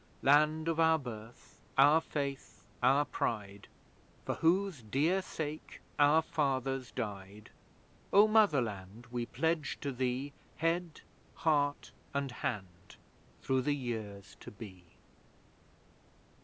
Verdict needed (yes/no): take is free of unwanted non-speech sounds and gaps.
yes